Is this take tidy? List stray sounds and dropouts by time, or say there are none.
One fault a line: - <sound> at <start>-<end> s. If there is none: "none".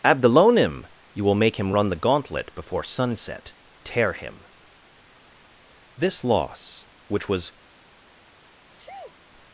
- sneeze at 8.8-9.2 s